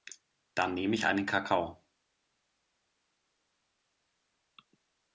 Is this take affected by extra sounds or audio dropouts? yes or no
no